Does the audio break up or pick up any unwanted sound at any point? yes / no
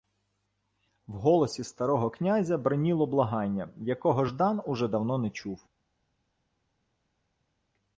no